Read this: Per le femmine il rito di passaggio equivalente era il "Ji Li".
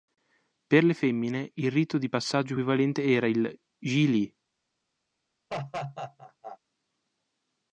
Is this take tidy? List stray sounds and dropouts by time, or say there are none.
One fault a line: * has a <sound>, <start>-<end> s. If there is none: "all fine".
* has a laugh, 5.5-6.6 s